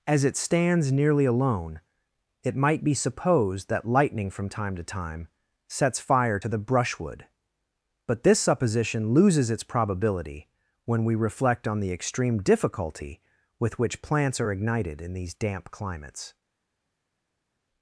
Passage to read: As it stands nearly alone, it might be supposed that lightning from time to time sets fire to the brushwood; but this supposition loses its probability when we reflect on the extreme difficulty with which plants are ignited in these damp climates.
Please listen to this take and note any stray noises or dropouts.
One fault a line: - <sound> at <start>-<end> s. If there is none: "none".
none